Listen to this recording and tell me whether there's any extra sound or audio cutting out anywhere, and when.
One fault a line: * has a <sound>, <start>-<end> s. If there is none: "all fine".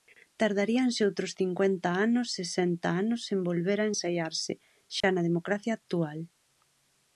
* has a dropout, 5.0-5.0 s